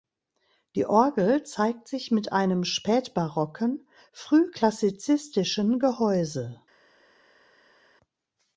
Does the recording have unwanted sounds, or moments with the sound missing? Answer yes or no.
no